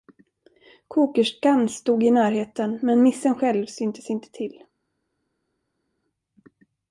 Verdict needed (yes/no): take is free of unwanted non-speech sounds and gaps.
yes